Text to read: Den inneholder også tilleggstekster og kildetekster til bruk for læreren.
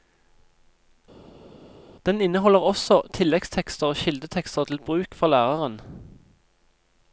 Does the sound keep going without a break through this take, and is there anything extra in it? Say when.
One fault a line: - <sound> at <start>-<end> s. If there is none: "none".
none